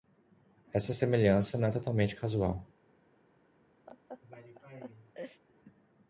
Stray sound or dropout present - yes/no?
yes